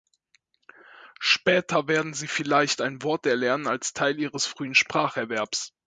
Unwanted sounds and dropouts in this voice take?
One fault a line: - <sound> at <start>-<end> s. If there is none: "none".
none